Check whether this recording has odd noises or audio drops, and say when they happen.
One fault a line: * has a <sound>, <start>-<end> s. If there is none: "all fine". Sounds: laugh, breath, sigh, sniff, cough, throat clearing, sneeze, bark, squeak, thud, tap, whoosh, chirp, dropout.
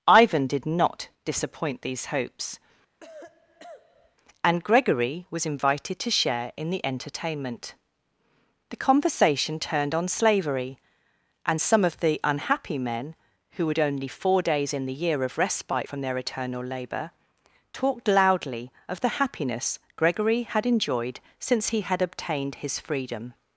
* has a cough, 3.0-4.2 s